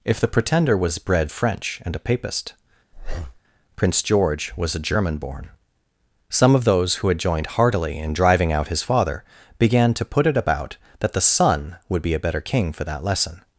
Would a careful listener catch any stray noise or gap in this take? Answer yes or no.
yes